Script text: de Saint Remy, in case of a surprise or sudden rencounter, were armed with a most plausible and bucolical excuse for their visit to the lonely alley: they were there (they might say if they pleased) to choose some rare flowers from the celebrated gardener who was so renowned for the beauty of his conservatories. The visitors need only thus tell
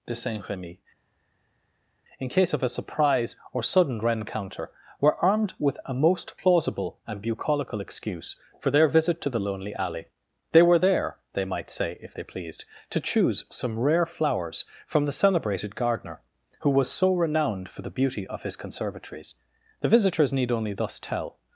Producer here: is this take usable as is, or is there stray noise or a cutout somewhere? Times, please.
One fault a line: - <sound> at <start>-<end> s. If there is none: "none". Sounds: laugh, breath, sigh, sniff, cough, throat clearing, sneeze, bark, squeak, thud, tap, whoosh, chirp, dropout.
none